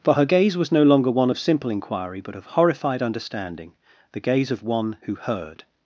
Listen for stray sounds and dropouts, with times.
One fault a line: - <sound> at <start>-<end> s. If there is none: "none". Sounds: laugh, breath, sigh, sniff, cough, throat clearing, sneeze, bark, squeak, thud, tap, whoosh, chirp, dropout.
none